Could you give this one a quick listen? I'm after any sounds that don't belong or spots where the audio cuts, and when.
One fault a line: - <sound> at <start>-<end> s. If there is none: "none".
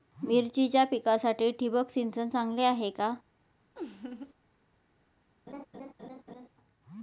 - laugh at 3.8-4.3 s
- laugh at 5.5-6.5 s